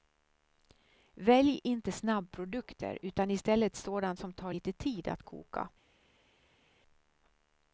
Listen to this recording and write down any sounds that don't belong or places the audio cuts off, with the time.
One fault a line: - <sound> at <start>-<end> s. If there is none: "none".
none